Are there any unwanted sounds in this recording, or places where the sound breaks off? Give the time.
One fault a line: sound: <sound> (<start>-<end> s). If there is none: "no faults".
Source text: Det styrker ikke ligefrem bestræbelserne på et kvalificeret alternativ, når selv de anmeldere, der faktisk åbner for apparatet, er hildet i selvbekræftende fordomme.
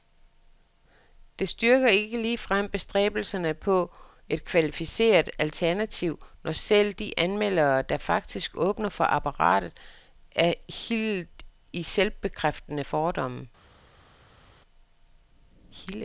no faults